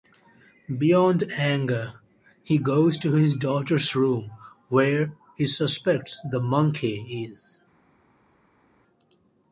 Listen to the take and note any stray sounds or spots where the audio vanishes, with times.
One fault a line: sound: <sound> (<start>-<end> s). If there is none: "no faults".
no faults